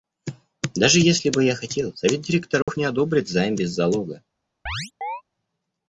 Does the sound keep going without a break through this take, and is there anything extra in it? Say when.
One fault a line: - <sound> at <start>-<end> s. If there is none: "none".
- dropout at 2.6-2.7 s
- chirp at 4.7-5.2 s